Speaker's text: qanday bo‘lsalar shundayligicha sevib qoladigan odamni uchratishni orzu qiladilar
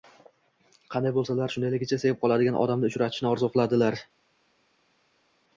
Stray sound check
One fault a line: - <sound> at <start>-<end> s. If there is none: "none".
none